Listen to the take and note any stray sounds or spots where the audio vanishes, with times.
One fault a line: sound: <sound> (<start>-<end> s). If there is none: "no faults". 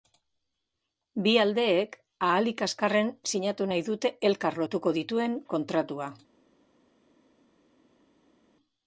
no faults